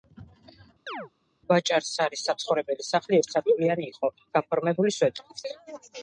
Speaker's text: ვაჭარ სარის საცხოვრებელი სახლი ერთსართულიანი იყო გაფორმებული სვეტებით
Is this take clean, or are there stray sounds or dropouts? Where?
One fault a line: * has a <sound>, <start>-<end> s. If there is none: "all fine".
* has a chirp, 0.9-1.1 s